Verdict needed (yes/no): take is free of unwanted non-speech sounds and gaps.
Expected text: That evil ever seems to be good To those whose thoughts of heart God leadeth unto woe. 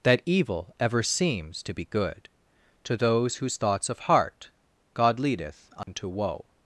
no